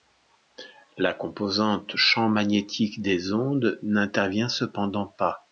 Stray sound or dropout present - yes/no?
no